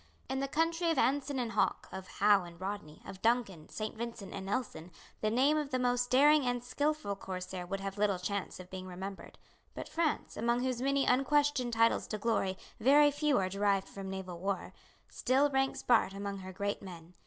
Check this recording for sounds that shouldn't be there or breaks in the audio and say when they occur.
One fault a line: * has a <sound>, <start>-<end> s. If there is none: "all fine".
all fine